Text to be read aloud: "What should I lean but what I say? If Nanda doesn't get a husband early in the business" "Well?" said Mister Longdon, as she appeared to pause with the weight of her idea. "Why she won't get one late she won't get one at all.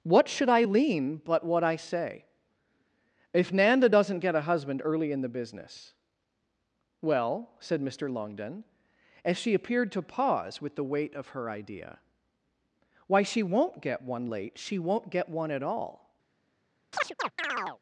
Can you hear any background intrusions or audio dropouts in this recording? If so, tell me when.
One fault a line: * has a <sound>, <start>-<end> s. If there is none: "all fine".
* has a chirp, 16.9-17.8 s